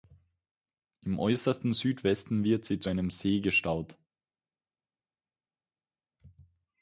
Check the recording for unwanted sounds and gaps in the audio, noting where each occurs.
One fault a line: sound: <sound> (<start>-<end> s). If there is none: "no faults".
no faults